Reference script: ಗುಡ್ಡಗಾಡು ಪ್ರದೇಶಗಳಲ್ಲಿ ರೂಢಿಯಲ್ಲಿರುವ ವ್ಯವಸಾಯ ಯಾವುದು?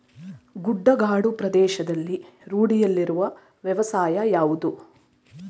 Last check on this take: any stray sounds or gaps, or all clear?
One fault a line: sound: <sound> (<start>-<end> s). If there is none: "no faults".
no faults